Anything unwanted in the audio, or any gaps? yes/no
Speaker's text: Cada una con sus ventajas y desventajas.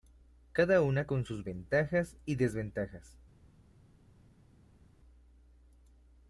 no